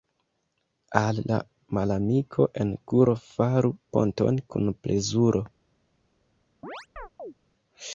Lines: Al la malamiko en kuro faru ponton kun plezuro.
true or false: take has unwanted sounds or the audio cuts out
true